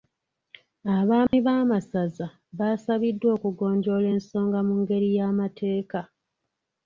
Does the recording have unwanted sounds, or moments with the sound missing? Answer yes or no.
yes